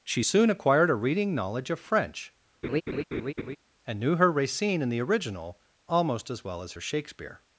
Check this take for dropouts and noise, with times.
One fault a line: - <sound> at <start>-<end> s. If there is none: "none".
- laugh at 2.6-3.6 s